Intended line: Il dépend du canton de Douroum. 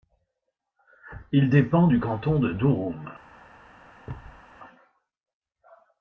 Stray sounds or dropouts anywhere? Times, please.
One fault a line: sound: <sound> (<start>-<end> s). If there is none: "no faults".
sound: thud (4.1-4.4 s)